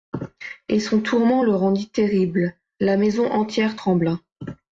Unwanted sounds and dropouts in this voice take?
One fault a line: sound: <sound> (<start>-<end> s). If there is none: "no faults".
no faults